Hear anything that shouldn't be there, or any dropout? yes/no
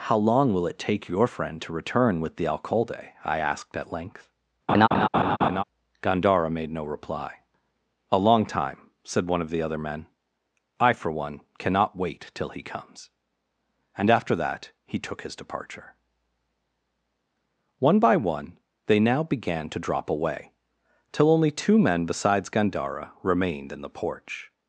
yes